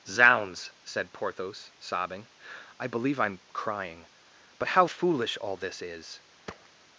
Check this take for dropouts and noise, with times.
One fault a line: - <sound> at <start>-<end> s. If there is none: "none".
- thud at 6.5-6.7 s